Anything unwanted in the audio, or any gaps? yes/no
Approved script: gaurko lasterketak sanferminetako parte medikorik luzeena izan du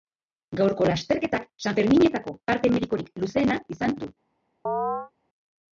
yes